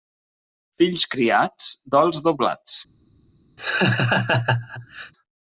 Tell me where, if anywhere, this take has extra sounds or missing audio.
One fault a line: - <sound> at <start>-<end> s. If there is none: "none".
- laugh at 3.6-5.1 s